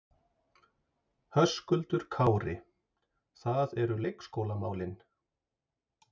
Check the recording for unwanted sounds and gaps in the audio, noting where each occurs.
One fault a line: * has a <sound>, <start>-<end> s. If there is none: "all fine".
all fine